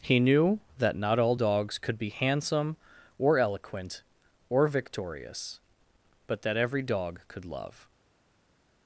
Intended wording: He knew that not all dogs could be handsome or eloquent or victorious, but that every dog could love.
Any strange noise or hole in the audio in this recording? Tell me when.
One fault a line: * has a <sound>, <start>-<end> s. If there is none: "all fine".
all fine